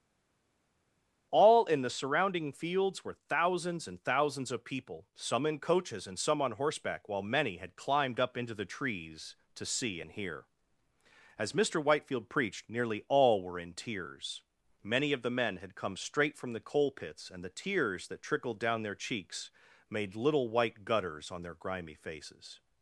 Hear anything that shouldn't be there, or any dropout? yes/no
no